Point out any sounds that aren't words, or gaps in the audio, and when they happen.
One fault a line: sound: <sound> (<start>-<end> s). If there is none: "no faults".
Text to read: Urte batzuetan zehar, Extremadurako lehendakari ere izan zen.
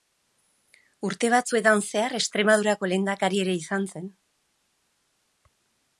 no faults